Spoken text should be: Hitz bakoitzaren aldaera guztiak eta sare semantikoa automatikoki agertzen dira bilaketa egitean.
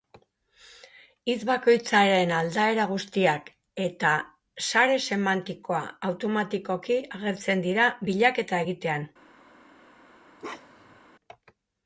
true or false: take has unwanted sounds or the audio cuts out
true